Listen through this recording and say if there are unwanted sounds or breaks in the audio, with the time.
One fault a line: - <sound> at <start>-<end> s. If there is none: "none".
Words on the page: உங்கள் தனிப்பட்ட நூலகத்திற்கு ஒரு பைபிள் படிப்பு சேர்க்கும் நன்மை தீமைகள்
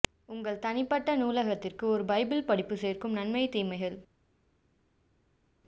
none